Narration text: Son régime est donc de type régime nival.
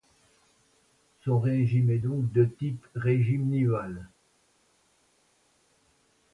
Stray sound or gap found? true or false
false